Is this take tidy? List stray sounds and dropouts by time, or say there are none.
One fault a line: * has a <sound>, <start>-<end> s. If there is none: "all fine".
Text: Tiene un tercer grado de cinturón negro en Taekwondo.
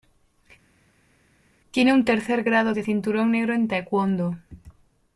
all fine